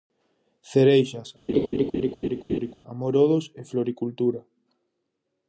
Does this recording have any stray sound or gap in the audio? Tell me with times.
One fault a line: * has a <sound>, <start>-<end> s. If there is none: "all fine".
* has a laugh, 1.5-2.7 s